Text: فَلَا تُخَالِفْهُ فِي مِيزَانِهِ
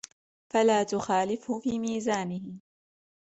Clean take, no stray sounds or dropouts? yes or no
yes